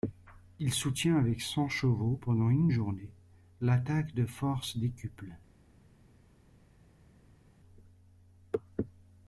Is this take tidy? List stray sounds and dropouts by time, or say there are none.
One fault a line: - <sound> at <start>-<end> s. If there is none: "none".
none